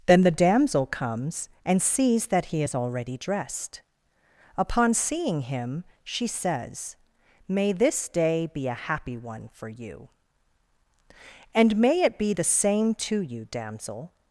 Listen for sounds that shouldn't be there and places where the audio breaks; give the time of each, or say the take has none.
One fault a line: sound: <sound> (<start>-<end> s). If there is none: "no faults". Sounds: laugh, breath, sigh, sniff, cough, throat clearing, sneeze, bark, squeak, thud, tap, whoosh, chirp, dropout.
no faults